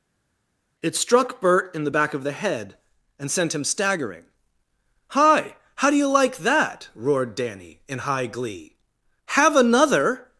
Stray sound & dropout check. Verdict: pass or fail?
pass